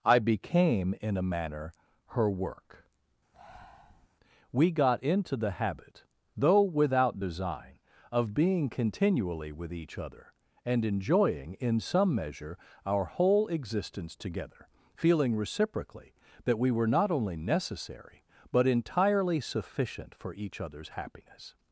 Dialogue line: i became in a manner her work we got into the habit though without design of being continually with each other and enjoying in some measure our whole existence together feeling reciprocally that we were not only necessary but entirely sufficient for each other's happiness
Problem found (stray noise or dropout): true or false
true